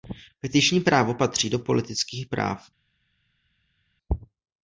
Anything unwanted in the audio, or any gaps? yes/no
no